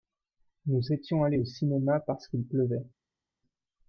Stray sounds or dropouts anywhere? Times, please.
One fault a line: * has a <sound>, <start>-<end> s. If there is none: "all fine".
all fine